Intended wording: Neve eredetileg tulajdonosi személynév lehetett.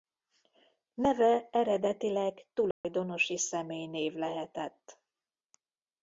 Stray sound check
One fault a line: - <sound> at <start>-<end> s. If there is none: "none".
- dropout at 2.7-2.8 s